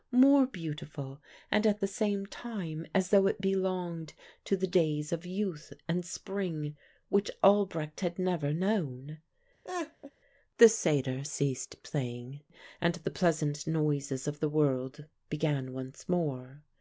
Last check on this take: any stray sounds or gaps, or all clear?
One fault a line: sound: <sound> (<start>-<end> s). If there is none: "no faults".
sound: laugh (9.6-10.1 s)